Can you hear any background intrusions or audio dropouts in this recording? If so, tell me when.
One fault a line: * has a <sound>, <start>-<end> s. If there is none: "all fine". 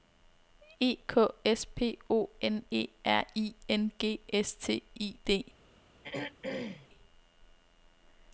* has a throat clearing, 6.0-6.9 s